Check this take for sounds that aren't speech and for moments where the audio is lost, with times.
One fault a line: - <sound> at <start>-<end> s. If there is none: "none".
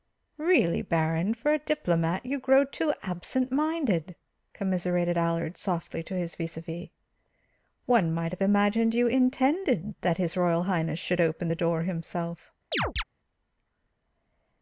- chirp at 12.7-13.0 s